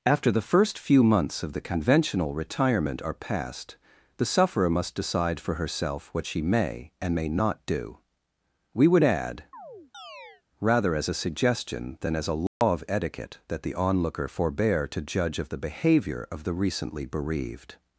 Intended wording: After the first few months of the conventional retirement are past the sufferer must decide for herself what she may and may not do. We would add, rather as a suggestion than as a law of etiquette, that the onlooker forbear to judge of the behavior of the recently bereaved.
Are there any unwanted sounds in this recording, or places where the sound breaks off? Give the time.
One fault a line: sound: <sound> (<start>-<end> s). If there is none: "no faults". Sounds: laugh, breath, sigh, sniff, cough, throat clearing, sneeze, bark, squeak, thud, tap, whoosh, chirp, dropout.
sound: chirp (9.5-10.4 s)
sound: dropout (12.5-12.6 s)